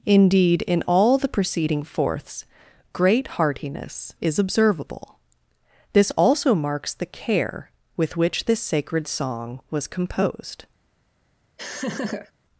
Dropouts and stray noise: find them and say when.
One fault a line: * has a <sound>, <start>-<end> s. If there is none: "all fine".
* has a laugh, 11.6-12.3 s